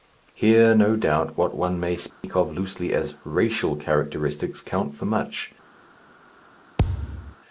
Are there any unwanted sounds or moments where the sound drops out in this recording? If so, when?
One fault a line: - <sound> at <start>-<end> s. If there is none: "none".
- dropout at 2.1-2.2 s
- thud at 6.8-7.4 s